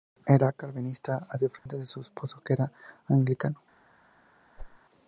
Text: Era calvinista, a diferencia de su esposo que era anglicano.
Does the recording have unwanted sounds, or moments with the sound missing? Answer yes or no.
yes